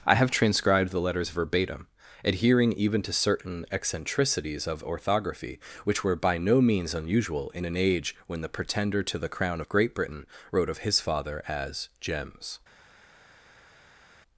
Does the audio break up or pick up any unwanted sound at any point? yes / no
no